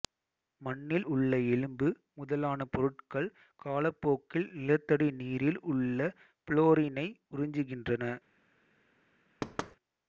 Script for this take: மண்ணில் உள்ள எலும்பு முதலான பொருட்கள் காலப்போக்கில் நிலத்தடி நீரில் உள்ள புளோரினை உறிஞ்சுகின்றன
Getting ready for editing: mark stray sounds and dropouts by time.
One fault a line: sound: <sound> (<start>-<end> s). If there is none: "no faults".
sound: thud (9.4-9.8 s)